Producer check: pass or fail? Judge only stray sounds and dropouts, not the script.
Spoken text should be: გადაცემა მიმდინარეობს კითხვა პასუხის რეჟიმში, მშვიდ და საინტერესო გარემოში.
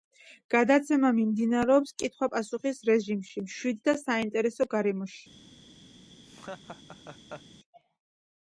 fail